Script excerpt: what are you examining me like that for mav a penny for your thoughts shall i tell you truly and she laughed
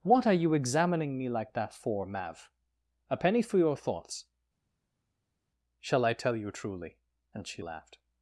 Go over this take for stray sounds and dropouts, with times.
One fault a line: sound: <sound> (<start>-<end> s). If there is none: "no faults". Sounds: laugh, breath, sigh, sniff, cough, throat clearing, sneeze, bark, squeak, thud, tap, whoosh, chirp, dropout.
no faults